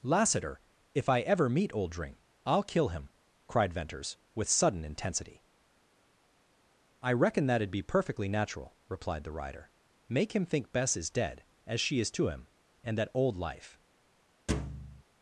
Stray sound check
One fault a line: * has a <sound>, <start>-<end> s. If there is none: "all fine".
* has a thud, 14.5-15.0 s